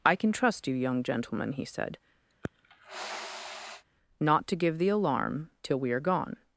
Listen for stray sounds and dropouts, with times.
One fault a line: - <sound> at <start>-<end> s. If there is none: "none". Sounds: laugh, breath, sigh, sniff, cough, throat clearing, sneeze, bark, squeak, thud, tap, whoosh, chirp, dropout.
- sniff at 2.3-3.8 s